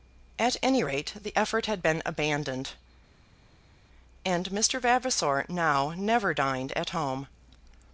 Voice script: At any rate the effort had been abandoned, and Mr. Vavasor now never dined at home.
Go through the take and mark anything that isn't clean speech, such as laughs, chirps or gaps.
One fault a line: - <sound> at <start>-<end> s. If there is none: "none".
none